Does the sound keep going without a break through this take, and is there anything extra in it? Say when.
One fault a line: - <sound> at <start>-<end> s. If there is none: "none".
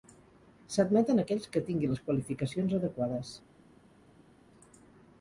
none